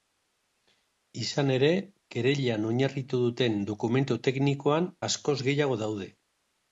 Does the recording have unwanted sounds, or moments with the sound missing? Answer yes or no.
no